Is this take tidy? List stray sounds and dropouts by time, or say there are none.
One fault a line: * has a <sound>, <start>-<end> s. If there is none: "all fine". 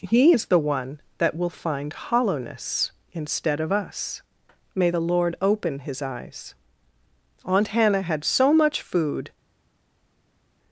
all fine